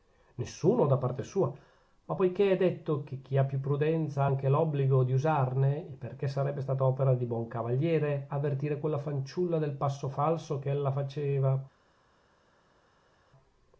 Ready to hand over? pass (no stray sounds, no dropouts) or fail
pass